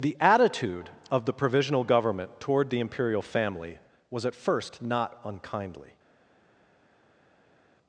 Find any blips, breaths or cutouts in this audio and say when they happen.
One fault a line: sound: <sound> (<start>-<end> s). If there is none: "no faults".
no faults